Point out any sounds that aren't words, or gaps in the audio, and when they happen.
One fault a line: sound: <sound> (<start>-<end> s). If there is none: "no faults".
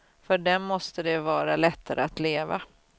no faults